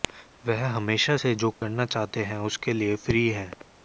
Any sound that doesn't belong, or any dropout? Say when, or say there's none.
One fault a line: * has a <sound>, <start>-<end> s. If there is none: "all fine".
* has a dropout, 1.5-1.6 s